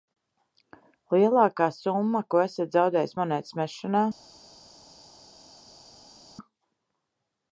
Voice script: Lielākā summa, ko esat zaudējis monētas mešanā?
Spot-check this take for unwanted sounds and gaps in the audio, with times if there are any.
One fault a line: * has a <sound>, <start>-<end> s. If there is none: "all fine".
all fine